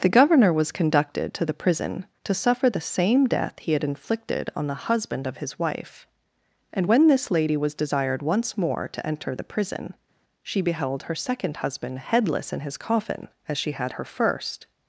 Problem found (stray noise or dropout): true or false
false